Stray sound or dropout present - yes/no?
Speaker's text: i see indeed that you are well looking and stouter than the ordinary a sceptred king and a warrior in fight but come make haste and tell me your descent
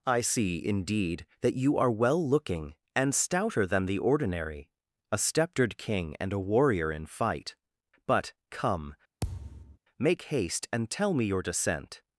yes